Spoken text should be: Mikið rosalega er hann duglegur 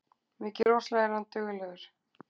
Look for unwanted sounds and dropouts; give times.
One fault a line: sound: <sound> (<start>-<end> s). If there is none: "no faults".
sound: dropout (0.6-0.7 s)